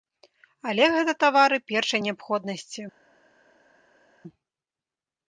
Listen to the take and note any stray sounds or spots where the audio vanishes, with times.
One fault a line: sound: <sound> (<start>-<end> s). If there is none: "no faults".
no faults